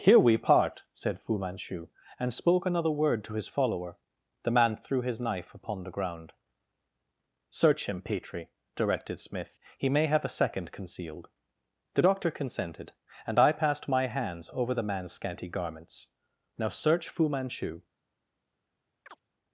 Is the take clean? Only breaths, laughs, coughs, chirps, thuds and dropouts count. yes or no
no